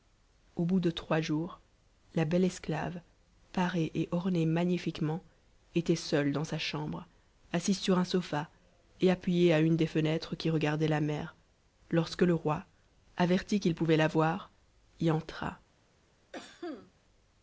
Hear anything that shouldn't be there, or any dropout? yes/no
yes